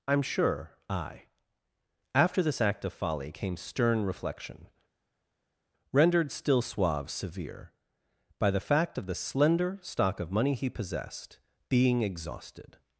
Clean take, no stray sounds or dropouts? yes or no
yes